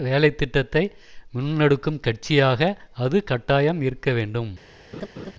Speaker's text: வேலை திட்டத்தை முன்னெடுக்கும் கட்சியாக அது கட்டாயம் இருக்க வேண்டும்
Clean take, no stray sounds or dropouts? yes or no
no